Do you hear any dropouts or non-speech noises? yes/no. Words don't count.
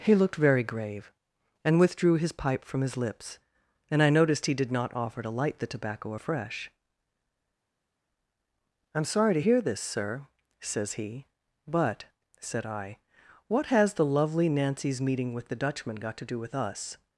no